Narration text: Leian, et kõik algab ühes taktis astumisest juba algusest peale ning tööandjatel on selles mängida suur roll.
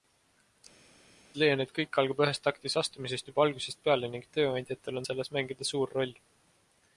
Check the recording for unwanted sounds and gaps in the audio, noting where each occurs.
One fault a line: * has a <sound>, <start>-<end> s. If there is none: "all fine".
all fine